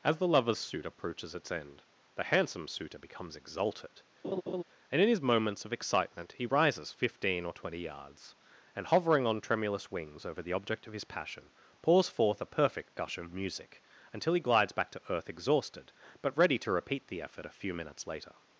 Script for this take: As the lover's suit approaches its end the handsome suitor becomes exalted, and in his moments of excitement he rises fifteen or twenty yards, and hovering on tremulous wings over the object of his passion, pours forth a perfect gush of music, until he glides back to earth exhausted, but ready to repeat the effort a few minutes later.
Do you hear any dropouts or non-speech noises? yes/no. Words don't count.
yes